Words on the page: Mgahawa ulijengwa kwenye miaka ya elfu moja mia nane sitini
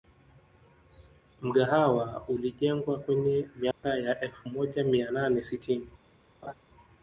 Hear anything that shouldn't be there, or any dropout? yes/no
yes